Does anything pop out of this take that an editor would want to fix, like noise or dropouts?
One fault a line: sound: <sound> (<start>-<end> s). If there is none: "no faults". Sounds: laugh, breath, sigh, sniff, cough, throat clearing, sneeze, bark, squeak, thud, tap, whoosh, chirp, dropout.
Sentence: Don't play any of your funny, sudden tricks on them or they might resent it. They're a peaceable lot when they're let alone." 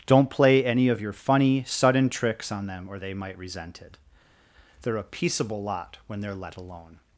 no faults